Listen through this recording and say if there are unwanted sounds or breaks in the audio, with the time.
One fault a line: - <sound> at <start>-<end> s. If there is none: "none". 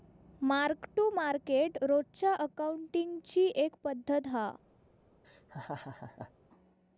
- laugh at 5.2-6.3 s